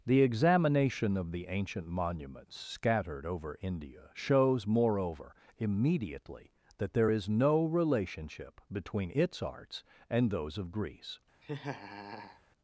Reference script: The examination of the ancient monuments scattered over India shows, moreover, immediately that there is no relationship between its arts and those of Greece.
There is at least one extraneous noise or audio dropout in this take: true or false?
true